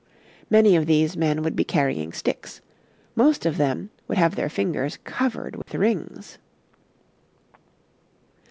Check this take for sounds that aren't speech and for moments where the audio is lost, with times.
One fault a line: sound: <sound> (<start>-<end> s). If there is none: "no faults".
sound: dropout (5.6-5.7 s)